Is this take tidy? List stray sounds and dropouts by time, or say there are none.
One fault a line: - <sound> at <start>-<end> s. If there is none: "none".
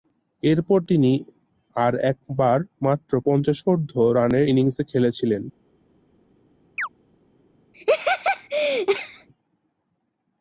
- chirp at 6.8-6.9 s
- laugh at 7.7-9.3 s